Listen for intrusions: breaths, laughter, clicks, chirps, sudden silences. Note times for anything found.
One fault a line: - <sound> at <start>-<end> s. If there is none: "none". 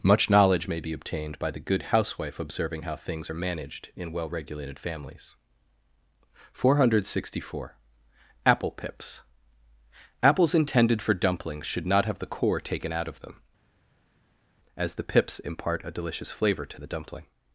none